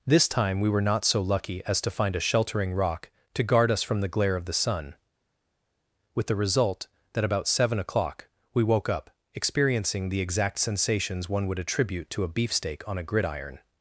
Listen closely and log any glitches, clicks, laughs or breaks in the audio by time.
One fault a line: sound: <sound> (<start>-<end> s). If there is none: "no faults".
no faults